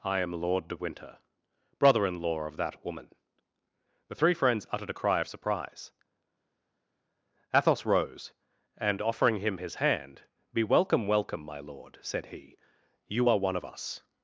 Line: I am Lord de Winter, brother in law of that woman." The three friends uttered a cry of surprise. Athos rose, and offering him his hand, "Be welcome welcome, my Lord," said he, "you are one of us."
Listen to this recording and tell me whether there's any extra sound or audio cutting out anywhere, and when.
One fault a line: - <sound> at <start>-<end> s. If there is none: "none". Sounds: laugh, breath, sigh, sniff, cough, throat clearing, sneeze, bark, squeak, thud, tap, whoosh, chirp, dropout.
none